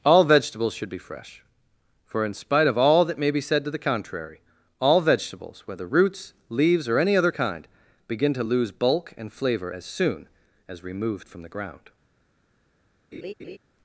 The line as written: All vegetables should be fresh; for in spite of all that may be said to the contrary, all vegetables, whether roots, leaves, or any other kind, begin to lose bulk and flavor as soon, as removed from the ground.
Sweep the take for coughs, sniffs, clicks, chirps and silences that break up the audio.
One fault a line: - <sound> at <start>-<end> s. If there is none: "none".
- laugh at 13.1-13.6 s